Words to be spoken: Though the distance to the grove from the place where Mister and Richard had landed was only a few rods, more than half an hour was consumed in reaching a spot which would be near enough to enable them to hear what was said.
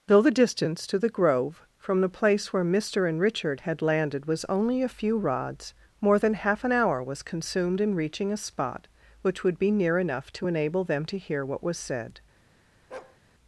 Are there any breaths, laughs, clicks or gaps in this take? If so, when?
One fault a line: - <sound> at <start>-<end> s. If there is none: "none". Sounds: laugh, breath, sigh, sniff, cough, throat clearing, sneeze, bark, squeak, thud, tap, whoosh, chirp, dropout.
- bark at 12.9-13.2 s